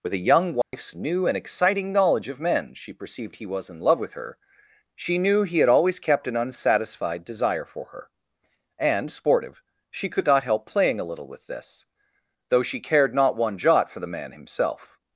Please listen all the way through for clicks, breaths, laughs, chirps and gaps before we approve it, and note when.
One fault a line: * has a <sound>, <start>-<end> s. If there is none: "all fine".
* has a dropout, 0.6-0.7 s